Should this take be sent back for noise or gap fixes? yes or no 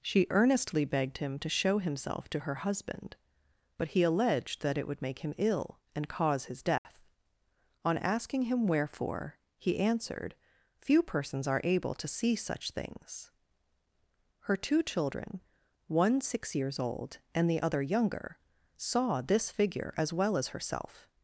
yes